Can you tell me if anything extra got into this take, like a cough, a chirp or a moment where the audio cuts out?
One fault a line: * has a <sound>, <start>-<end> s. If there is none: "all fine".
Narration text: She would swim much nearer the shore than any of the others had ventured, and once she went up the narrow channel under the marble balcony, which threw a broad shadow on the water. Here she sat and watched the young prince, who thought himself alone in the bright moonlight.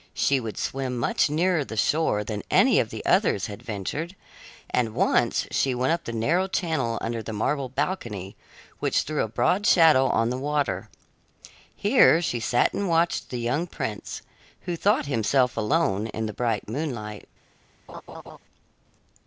* has a laugh, 17.9-18.4 s